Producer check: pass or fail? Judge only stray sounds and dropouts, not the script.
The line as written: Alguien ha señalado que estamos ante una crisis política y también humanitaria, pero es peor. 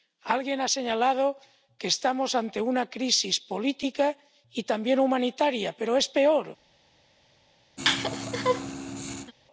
fail